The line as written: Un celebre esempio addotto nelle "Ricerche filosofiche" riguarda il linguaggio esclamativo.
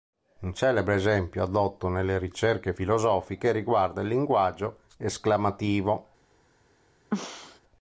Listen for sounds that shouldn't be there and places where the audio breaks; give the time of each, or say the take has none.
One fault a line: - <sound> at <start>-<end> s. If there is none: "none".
- throat clearing at 7.1-7.6 s